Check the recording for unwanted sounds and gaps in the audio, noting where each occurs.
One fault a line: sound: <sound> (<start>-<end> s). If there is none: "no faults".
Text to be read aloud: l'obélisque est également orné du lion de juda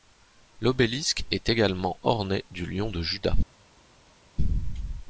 no faults